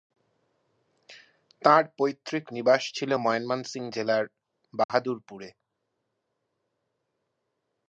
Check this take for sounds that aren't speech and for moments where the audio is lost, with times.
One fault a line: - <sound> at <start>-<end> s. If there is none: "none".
- dropout at 4.8-4.9 s